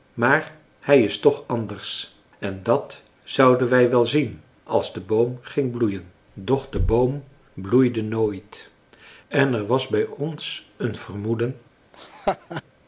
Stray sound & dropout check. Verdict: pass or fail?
fail